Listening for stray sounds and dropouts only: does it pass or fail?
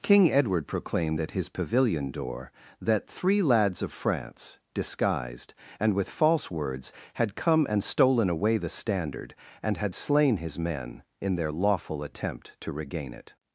pass